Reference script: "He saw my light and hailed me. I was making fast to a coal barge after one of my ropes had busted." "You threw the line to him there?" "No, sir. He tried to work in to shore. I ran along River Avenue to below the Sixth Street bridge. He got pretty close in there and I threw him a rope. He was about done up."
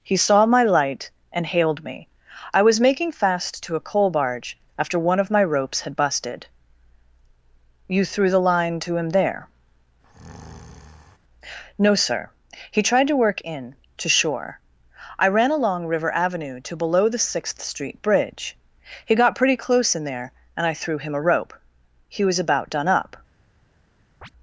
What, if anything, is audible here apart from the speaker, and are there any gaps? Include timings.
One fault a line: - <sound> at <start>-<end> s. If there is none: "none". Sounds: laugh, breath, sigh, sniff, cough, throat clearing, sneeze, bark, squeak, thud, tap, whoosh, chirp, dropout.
- breath at 10.0-11.2 s
- chirp at 24.2-24.3 s